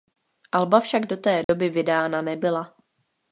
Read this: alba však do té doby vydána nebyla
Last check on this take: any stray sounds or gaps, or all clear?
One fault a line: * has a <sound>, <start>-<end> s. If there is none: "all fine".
* has a dropout, 1.4-1.5 s